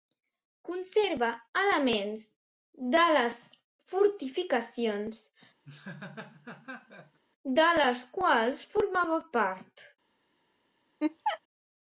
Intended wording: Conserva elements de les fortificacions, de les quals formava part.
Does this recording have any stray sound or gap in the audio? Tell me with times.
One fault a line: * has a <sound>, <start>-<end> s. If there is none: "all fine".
* has a laugh, 5.6-7.2 s
* has a laugh, 11.0-11.4 s